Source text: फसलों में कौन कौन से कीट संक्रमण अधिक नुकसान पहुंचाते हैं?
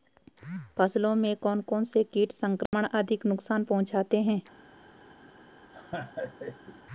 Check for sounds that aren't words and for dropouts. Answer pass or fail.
fail